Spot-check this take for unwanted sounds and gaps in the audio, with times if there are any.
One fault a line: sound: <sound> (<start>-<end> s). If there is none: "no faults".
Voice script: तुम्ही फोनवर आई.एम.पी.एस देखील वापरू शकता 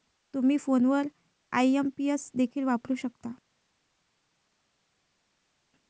no faults